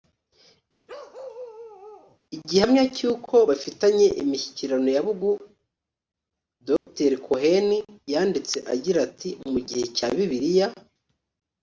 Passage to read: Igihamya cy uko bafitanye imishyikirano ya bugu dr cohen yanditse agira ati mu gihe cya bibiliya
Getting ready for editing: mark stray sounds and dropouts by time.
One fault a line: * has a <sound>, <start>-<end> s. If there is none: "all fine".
* has a bark, 0.9-2.2 s
* has a dropout, 6.8-6.9 s